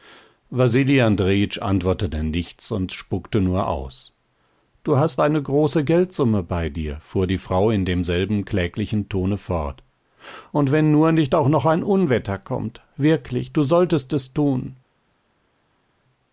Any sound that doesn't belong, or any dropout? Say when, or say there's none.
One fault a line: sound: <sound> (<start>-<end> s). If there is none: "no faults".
no faults